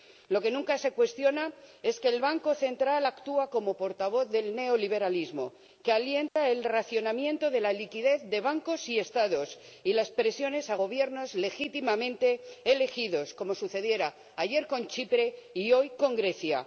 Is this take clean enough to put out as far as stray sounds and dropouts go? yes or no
no